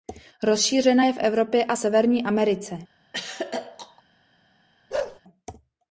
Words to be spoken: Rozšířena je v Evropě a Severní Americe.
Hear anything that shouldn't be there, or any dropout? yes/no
yes